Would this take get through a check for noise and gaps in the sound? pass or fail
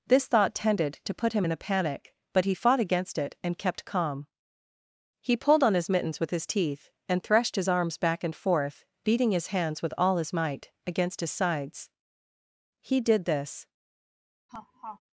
fail